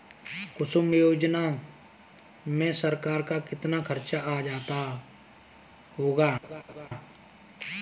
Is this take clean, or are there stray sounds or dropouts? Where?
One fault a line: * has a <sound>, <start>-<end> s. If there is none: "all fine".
* has a laugh, 6.4-6.9 s